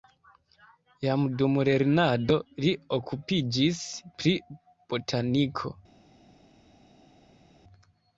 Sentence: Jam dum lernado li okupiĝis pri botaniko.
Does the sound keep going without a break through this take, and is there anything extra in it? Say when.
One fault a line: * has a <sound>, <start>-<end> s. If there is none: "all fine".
all fine